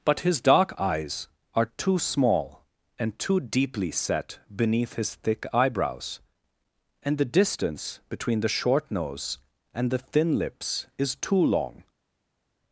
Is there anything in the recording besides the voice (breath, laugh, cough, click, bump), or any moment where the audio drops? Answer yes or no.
no